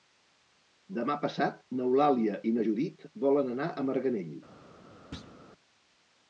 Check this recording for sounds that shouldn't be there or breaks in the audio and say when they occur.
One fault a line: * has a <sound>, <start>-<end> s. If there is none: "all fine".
* has a thud, 5.1-5.4 s